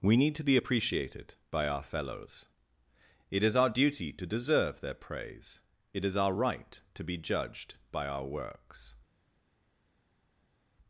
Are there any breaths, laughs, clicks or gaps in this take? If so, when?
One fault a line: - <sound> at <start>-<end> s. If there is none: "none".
none